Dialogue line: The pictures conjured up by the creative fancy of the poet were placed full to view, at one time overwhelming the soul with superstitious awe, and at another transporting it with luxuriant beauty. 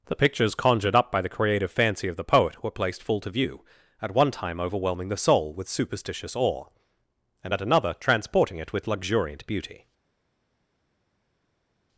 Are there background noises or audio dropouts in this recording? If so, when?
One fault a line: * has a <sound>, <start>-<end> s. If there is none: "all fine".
all fine